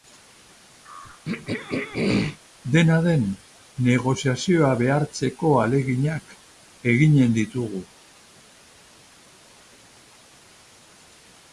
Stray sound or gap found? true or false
true